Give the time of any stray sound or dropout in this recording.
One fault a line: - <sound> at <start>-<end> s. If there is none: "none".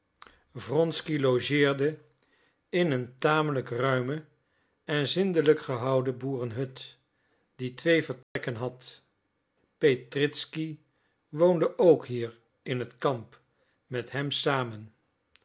- dropout at 8.2-8.4 s